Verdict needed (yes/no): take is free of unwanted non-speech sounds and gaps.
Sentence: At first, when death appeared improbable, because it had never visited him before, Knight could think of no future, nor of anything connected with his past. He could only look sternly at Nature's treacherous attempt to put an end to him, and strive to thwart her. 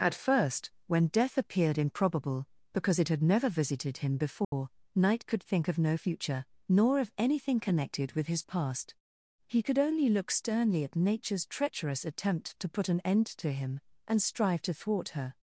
no